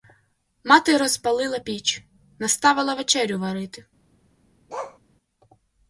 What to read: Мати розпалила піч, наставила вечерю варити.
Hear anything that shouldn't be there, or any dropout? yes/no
yes